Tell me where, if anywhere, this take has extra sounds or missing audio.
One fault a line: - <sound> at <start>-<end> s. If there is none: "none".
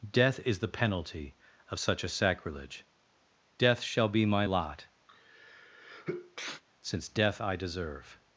- sneeze at 5.1-6.6 s